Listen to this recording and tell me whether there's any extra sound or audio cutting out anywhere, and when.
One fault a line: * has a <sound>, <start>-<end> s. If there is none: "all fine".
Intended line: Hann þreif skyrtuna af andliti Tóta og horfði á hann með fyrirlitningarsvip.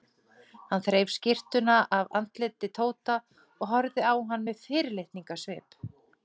all fine